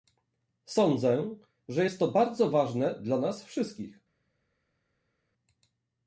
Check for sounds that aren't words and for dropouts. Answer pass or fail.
pass